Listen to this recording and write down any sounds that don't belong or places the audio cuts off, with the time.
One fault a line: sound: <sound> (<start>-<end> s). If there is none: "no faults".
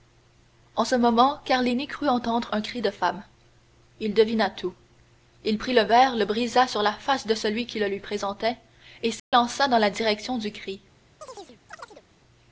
sound: dropout (9.2-9.3 s)
sound: chirp (11.2-12.0 s)